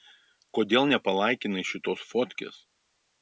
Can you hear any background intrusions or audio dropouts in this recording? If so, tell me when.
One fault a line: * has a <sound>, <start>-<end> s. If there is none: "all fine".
all fine